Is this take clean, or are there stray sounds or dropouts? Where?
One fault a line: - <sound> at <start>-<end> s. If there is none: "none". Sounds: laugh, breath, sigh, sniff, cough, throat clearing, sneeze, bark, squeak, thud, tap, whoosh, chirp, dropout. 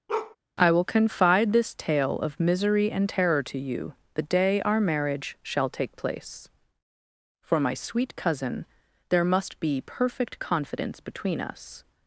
- bark at 0.1-0.4 s